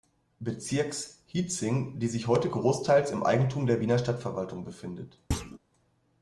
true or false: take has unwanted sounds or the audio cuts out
true